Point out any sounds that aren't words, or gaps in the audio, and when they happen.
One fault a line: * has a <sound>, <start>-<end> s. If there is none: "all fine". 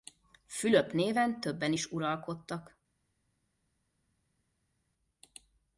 all fine